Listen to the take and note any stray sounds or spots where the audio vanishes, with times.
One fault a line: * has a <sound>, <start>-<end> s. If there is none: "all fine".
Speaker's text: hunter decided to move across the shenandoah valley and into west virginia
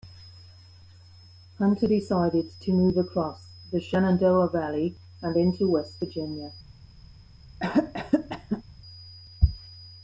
* has a cough, 7.6-8.6 s